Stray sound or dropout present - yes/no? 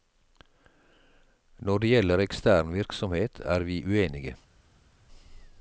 no